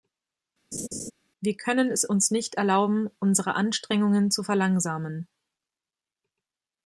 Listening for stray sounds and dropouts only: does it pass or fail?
fail